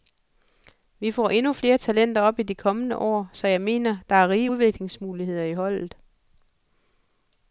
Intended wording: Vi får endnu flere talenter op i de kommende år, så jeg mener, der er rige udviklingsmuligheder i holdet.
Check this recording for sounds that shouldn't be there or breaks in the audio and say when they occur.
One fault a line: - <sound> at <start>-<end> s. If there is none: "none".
none